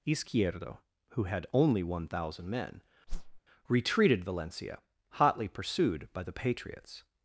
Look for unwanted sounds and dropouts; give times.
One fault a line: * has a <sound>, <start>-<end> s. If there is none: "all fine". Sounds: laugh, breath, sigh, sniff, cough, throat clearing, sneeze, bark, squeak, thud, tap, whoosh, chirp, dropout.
* has a whoosh, 3.1-3.4 s